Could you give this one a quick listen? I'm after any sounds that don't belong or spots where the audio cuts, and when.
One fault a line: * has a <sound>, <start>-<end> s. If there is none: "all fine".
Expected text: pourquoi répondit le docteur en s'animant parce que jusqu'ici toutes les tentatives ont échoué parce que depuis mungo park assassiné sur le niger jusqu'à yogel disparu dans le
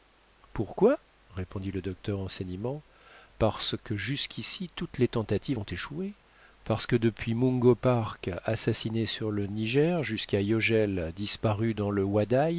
all fine